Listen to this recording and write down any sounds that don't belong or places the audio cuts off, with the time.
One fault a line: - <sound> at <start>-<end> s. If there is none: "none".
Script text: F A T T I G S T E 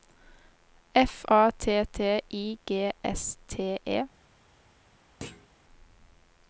- thud at 5.2-5.5 s